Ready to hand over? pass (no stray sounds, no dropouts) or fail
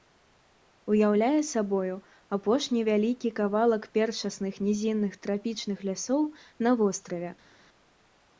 pass